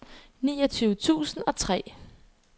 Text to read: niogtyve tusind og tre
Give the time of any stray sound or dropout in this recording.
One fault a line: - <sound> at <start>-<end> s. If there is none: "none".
none